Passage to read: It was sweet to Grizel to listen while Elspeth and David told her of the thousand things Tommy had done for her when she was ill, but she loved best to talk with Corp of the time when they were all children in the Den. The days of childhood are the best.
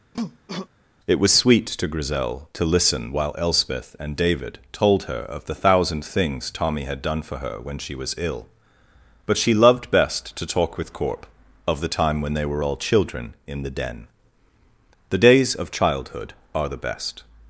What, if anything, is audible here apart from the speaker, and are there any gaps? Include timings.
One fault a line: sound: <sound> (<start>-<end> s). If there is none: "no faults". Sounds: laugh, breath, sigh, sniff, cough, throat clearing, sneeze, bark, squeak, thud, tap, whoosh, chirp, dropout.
sound: cough (0.1-0.7 s)